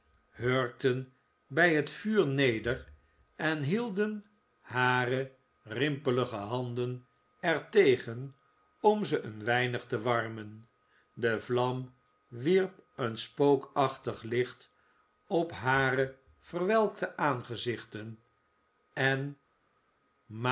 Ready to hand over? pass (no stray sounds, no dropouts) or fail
pass